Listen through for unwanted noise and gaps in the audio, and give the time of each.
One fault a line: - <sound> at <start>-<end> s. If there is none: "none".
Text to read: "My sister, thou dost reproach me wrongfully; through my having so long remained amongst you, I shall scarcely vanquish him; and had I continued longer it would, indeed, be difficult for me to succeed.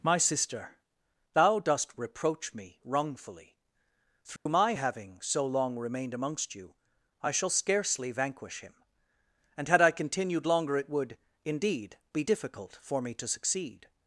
- dropout at 4.4-4.5 s